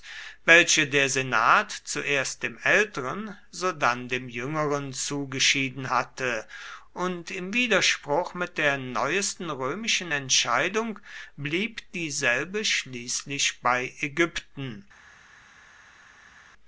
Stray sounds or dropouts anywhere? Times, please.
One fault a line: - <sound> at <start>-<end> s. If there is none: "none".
none